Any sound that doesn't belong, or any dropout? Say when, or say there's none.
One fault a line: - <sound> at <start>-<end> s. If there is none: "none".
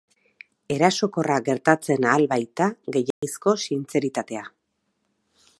- dropout at 3.1-3.2 s